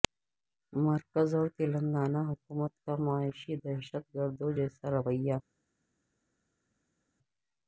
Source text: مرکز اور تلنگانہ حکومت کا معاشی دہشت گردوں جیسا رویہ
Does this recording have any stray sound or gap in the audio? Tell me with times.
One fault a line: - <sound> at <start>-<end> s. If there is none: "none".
none